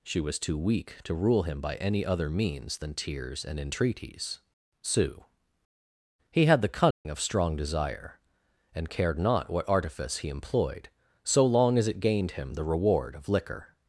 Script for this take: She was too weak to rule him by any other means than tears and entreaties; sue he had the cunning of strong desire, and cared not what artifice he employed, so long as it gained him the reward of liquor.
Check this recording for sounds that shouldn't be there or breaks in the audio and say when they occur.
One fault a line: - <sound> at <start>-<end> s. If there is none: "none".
- dropout at 6.9-7.1 s